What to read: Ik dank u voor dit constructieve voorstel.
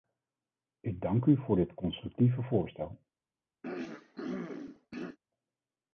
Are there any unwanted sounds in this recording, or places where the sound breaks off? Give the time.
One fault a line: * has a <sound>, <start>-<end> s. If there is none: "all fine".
* has a throat clearing, 3.6-5.2 s